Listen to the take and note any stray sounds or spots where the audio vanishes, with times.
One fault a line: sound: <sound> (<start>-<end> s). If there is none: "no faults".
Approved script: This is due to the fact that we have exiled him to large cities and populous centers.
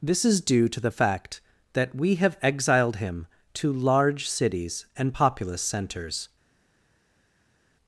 no faults